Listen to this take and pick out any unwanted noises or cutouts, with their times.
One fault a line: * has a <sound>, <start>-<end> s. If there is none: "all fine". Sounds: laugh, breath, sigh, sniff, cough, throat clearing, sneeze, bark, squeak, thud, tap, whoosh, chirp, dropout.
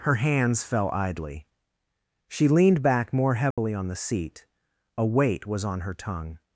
* has a dropout, 3.5-3.6 s